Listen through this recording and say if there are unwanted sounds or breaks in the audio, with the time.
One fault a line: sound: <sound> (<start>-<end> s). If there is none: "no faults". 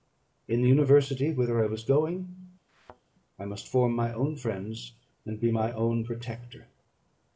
sound: thud (2.7-3.0 s)